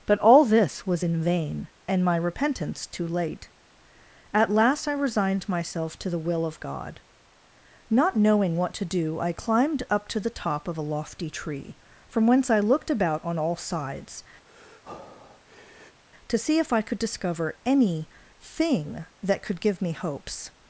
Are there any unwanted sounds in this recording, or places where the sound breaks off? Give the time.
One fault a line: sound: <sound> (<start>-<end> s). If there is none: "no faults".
sound: breath (14.5-16.0 s)